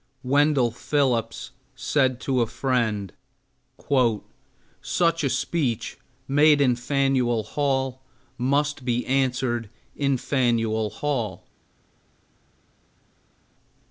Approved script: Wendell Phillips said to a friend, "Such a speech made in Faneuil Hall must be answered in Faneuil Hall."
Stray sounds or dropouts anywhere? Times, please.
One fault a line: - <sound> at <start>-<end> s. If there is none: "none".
none